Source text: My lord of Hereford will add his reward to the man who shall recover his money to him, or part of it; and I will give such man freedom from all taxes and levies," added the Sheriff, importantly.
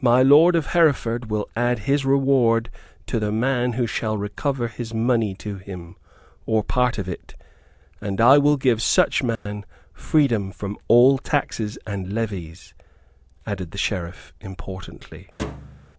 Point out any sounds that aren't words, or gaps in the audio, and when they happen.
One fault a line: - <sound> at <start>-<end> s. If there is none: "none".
- dropout at 9.4-9.5 s
- thud at 15.4-15.9 s